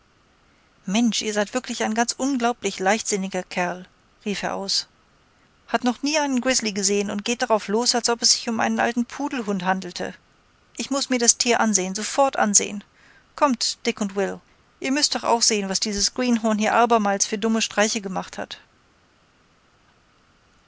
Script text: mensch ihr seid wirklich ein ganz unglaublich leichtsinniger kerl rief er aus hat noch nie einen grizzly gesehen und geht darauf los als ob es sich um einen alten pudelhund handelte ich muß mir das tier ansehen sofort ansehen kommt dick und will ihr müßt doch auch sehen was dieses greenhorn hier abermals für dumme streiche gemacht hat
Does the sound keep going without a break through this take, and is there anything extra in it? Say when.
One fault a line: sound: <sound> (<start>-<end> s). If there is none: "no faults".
no faults